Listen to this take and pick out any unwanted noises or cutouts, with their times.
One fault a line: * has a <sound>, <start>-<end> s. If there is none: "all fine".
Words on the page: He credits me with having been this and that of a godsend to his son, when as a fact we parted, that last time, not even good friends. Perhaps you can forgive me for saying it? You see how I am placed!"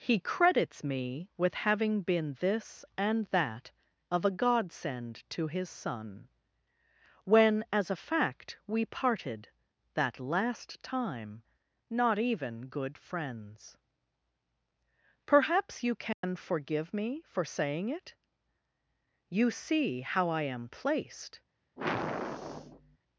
* has a dropout, 16.1-16.2 s
* has a sigh, 21.8-23.0 s